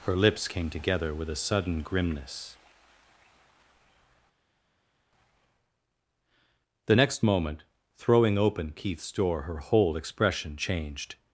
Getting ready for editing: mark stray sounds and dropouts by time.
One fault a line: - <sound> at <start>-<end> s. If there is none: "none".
none